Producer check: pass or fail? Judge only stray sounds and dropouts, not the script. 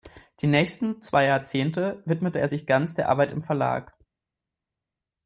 pass